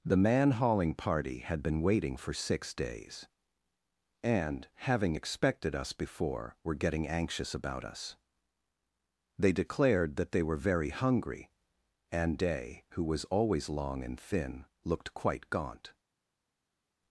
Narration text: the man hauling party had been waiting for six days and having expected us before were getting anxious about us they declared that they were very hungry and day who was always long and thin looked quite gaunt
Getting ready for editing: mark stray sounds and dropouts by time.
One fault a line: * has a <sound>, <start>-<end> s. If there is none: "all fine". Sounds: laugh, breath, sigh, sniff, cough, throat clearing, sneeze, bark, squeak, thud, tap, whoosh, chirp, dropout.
all fine